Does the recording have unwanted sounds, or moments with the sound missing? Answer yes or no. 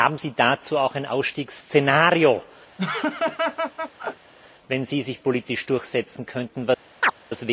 yes